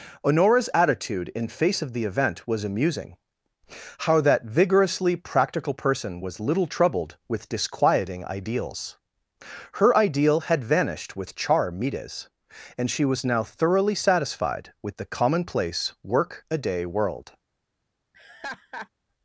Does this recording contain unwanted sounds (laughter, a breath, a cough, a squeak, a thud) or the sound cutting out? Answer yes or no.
yes